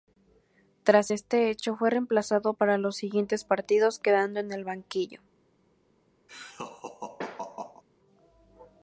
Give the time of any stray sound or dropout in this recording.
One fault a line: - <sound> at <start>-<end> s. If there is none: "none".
- laugh at 6.3-7.8 s